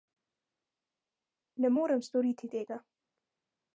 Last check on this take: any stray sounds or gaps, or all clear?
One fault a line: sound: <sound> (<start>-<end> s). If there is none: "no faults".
no faults